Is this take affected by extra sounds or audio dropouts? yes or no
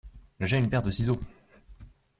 no